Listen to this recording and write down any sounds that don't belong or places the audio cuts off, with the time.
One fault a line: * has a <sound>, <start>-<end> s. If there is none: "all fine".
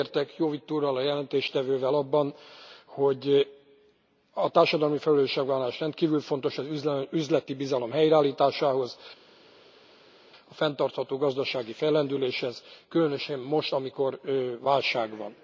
all fine